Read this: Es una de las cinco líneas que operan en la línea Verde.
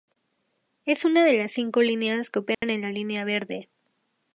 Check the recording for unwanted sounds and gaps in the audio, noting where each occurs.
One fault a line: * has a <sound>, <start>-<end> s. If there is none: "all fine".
* has a dropout, 2.5-2.6 s